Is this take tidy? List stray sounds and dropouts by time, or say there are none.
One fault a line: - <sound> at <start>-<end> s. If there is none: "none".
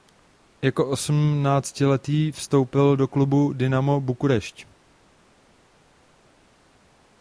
none